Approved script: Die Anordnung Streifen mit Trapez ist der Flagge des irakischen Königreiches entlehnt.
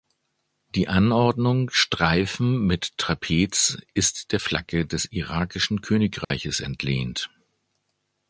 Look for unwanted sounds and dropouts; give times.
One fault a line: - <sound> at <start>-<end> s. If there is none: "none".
- dropout at 6.2-6.3 s